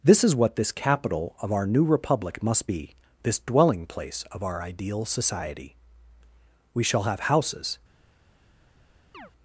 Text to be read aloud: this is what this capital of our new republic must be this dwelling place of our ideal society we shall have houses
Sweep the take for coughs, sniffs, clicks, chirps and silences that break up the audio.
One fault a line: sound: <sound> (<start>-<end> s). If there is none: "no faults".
sound: chirp (9.1-9.3 s)